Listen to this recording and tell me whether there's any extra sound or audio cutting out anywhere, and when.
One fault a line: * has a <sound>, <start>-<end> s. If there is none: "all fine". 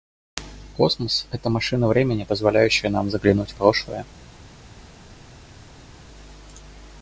all fine